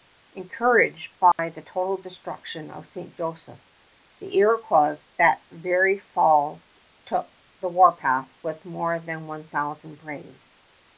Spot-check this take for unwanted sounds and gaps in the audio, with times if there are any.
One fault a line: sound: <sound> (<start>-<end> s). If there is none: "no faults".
sound: dropout (1.3-1.4 s)